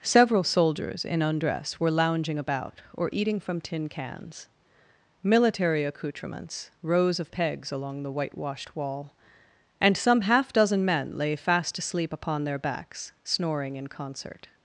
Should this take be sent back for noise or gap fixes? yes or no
no